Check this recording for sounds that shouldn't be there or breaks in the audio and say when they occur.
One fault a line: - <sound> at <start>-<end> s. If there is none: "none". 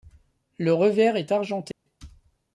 - dropout at 1.7-1.9 s